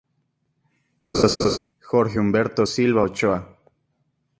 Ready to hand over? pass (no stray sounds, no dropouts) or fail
fail